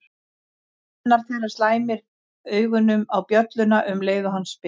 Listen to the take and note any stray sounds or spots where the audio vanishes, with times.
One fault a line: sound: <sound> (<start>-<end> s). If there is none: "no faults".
no faults